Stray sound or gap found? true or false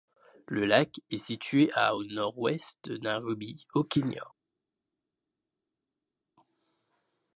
false